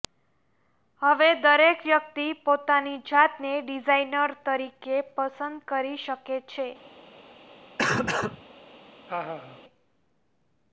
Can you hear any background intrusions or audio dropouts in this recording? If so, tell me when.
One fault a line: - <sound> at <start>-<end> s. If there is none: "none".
- cough at 7.8-8.4 s
- laugh at 9.1-9.6 s